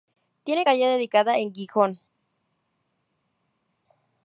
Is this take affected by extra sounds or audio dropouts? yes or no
no